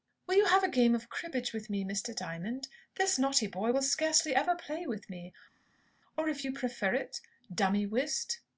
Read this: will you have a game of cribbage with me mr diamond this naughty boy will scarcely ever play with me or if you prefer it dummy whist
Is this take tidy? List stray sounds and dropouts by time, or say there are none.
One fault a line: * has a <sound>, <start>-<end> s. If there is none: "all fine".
all fine